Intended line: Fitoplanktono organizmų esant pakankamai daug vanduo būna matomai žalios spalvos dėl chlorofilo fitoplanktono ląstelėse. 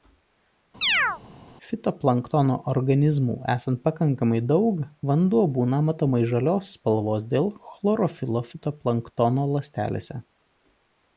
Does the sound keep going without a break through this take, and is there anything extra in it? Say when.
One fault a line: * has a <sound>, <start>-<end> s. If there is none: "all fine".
* has a chirp, 0.8-1.2 s